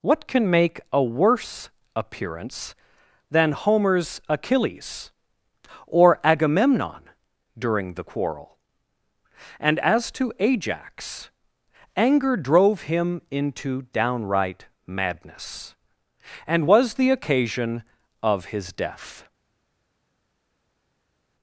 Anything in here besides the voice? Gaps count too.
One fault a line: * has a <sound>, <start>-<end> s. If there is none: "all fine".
all fine